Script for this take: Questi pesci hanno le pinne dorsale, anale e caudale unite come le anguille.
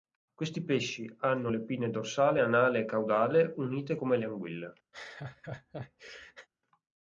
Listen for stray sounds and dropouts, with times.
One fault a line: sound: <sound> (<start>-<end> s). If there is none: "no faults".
sound: laugh (4.9-6.5 s)